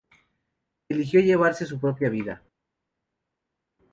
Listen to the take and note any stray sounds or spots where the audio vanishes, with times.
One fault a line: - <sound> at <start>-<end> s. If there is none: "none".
none